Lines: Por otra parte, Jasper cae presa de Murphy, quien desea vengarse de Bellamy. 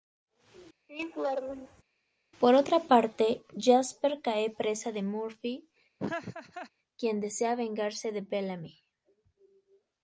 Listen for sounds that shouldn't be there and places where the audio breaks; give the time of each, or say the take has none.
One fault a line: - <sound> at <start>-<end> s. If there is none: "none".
- laugh at 0.9-1.8 s
- laugh at 6.0-6.7 s